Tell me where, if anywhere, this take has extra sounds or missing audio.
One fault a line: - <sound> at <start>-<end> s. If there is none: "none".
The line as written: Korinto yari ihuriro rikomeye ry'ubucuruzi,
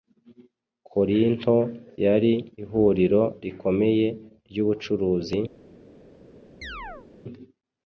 - chirp at 6.6-7.1 s